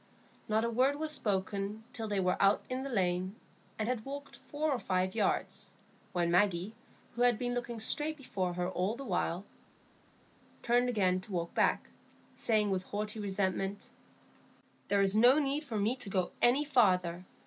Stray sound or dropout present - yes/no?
no